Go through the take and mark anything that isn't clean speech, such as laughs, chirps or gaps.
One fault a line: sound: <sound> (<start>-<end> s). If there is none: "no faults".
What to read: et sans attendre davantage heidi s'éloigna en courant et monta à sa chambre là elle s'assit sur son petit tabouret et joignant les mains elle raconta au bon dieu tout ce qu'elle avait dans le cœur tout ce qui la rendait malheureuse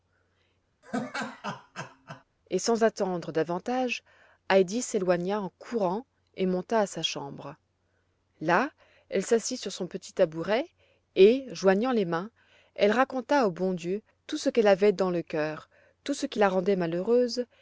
sound: laugh (0.8-2.2 s)